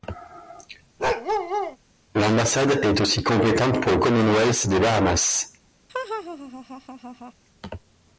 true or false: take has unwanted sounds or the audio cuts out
true